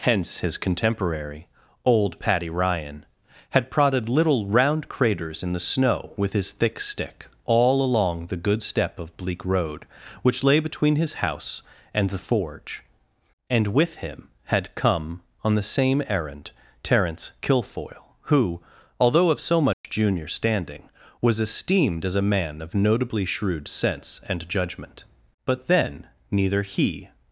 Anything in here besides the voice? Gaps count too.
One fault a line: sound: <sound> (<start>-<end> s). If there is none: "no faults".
sound: dropout (19.7-19.8 s)